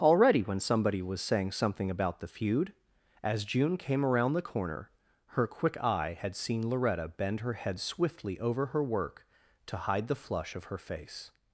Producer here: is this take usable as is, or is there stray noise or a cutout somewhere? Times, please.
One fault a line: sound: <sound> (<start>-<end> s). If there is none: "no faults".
no faults